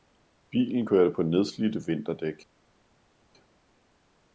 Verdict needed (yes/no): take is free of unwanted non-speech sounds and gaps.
yes